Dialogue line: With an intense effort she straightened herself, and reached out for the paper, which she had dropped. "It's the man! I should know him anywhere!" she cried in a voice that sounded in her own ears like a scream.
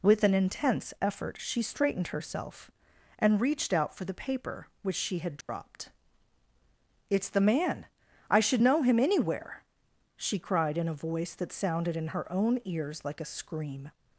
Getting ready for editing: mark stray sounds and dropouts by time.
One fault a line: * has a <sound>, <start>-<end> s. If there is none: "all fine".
* has a dropout, 5.4-5.5 s